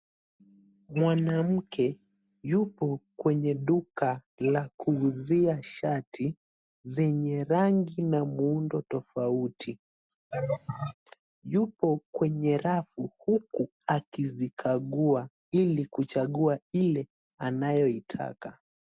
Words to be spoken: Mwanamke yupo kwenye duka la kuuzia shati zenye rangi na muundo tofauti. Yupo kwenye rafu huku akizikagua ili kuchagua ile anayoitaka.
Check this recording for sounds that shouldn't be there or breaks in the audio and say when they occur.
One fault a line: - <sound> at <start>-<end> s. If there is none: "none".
- laugh at 10.3-10.9 s